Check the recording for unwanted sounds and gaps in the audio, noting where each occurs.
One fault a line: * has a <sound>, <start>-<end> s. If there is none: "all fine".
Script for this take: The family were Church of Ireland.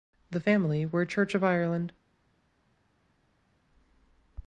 all fine